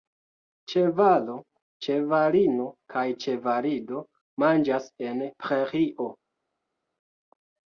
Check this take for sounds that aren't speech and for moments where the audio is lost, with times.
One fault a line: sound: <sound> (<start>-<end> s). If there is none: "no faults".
no faults